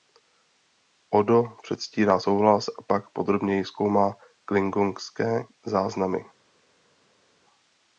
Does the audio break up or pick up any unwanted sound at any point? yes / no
no